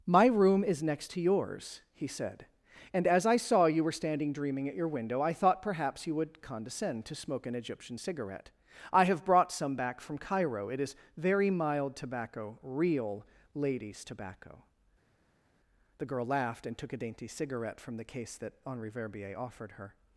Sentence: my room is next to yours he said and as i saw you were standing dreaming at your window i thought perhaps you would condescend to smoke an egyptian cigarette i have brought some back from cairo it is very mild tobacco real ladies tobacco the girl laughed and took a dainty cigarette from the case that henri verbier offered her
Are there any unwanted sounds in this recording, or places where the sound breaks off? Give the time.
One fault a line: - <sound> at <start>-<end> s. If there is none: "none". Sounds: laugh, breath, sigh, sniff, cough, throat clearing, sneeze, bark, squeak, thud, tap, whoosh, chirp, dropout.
none